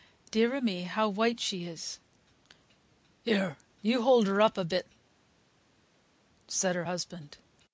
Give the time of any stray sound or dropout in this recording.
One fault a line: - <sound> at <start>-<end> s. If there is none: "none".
none